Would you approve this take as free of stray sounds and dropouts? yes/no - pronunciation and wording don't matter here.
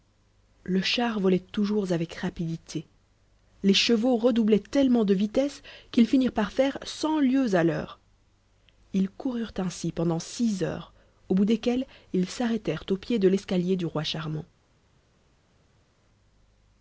yes